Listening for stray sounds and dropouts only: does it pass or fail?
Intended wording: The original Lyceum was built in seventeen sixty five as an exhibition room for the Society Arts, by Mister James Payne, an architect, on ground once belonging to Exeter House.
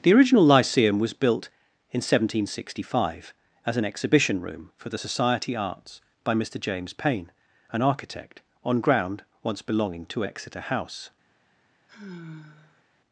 fail